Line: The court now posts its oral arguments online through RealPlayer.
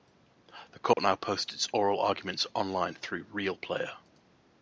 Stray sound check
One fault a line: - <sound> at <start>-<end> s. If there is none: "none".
- dropout at 0.9-1.0 s